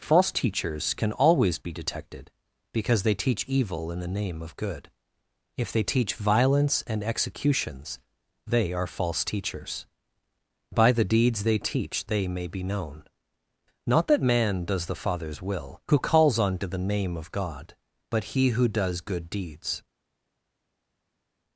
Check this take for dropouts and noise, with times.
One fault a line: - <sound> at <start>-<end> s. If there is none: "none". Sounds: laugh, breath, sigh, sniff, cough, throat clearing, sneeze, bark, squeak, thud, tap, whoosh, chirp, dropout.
none